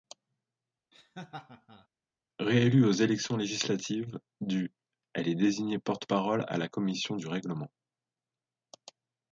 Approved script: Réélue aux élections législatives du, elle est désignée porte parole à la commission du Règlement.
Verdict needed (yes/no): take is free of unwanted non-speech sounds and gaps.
no